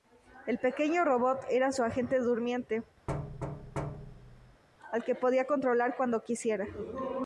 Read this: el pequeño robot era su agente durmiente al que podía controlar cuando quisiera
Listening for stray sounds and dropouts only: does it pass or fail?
fail